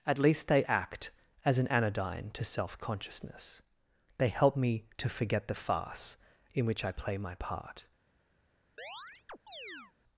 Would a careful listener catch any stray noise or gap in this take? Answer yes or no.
yes